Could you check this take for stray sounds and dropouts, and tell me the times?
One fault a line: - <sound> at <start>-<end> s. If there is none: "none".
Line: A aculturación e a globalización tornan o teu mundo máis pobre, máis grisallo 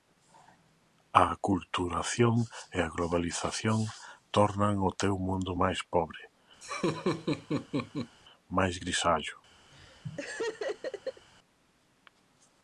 - laugh at 6.6-8.2 s
- laugh at 9.7-11.3 s